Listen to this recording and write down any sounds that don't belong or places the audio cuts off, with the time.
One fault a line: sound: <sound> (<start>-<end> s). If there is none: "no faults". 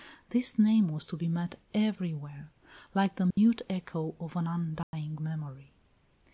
sound: dropout (3.3-3.4 s)
sound: dropout (4.8-4.9 s)